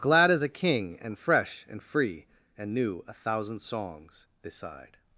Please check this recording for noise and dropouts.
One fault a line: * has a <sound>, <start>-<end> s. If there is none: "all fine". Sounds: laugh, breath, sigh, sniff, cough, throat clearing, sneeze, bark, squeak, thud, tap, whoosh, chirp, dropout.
all fine